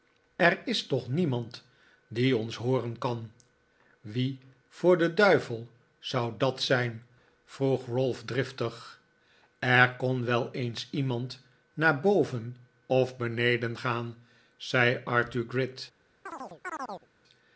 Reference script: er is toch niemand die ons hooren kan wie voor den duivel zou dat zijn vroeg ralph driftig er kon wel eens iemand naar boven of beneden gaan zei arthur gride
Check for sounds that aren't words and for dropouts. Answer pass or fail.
fail